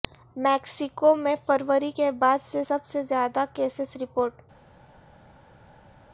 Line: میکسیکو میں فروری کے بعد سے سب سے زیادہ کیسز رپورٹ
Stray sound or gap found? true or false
false